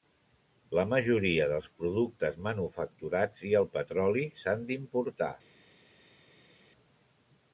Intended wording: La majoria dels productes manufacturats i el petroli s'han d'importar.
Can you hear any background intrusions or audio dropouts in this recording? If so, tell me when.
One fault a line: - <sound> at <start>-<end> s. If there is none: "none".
none